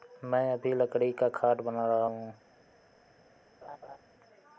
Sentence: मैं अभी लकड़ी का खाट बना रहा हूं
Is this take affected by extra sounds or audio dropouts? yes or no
yes